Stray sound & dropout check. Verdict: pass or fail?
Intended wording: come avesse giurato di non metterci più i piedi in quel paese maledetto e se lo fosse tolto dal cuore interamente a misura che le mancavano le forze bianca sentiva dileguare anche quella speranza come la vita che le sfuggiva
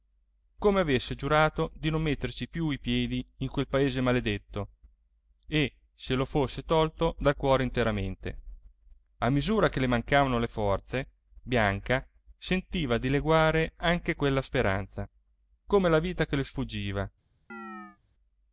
fail